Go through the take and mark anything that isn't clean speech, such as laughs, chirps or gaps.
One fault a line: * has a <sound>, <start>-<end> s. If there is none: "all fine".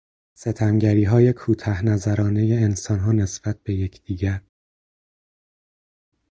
all fine